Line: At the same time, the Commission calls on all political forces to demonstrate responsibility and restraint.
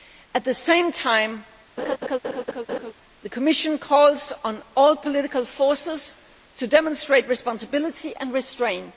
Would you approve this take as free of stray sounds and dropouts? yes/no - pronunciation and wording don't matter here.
no